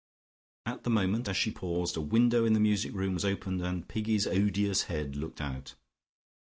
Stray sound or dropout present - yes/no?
no